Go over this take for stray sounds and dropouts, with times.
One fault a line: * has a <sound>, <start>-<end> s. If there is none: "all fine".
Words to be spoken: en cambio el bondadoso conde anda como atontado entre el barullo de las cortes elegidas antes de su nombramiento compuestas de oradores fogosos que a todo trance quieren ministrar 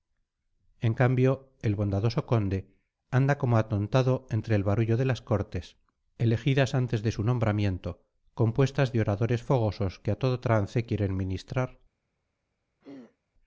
* has a throat clearing, 12.8-13.2 s